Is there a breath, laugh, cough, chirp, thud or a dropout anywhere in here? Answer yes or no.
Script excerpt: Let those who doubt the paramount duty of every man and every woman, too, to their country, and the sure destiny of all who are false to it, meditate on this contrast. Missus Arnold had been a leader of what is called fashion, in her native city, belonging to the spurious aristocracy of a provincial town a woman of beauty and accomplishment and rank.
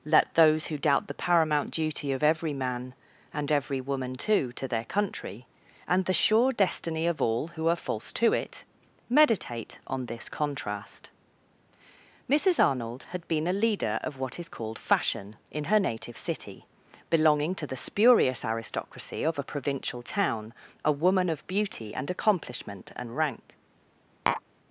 yes